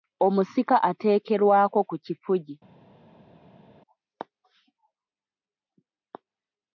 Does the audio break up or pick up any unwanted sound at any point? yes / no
no